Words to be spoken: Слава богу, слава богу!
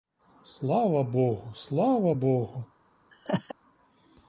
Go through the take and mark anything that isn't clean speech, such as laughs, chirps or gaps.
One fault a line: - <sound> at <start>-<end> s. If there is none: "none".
- laugh at 3.1-3.5 s